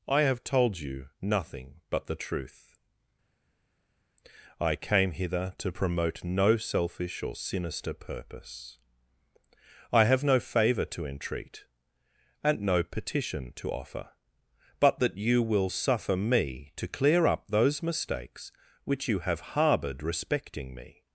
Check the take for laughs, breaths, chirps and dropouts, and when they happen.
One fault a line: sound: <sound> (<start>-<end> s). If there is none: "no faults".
no faults